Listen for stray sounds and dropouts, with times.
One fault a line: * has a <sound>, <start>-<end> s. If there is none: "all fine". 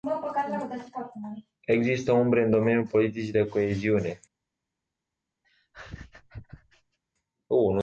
* has a laugh, 5.4-7.0 s